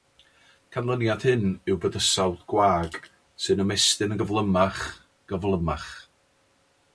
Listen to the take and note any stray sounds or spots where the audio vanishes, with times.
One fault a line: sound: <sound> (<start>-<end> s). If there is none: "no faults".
no faults